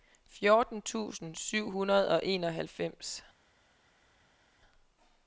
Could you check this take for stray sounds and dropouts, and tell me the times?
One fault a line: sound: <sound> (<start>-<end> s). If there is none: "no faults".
no faults